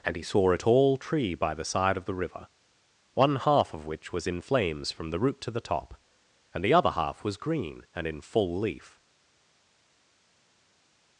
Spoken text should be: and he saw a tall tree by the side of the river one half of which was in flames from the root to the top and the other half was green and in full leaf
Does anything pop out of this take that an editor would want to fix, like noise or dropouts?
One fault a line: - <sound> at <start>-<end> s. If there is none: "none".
none